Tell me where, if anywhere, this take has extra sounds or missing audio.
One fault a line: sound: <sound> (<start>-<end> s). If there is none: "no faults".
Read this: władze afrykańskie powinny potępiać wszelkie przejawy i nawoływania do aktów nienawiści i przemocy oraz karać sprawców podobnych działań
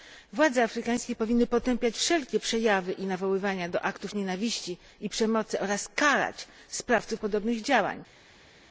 no faults